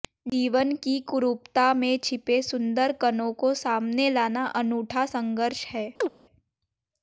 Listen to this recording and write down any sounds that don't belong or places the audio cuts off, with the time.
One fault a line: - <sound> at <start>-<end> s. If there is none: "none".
- chirp at 6.0-6.1 s